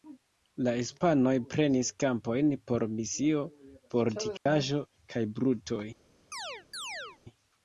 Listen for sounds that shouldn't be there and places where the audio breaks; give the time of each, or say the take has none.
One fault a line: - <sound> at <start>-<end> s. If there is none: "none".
- dropout at 4.4-4.5 s
- chirp at 6.3-7.2 s